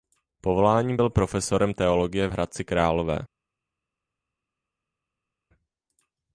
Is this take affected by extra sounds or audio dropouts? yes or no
no